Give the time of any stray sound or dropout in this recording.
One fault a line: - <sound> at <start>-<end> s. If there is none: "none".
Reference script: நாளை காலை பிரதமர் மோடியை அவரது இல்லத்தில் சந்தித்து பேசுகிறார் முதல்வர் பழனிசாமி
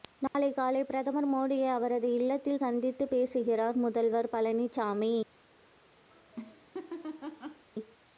- dropout at 0.3-0.3 s
- laugh at 6.1-7.7 s